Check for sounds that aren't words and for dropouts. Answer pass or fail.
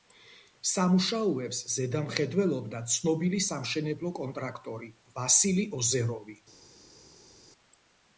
pass